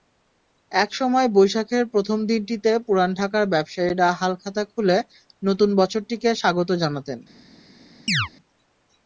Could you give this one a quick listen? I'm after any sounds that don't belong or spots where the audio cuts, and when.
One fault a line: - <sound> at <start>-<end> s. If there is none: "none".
- chirp at 8.1-8.3 s